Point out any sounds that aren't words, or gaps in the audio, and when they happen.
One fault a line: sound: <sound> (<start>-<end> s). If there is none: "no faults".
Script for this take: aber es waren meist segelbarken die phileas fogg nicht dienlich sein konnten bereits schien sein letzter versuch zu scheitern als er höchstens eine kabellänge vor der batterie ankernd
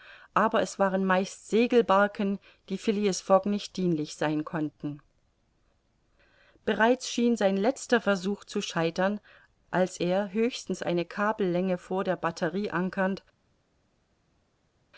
no faults